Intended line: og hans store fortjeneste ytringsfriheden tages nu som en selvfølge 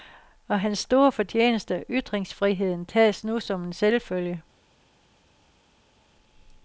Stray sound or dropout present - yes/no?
no